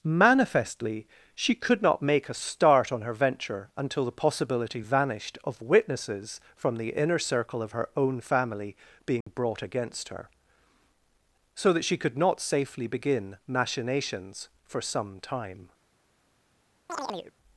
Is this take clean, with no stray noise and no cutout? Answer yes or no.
no